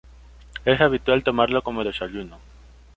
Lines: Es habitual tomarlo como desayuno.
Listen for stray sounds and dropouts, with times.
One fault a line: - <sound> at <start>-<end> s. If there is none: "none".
none